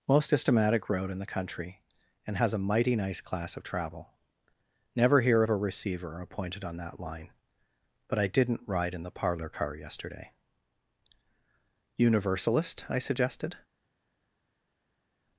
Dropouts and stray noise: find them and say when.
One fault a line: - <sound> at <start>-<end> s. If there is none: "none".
none